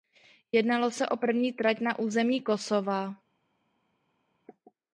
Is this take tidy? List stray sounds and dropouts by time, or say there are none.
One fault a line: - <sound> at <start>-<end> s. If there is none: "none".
none